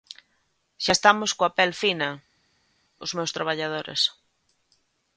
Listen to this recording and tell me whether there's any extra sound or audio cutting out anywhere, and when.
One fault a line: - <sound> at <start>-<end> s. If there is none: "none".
none